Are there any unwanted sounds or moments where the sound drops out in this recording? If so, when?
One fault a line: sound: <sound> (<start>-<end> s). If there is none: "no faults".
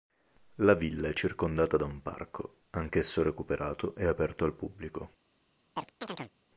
sound: chirp (5.8-6.3 s)